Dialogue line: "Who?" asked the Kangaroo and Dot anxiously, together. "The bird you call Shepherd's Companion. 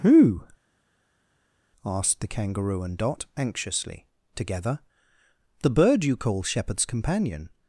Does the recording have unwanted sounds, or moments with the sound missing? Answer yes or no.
no